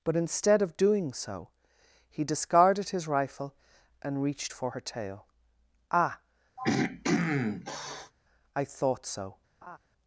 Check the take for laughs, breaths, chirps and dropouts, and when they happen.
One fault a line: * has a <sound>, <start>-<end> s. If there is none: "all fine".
* has a throat clearing, 6.6-8.1 s
* has a laugh, 9.6-9.8 s